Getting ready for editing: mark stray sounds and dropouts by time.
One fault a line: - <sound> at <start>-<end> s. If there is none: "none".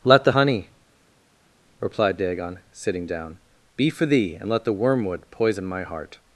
none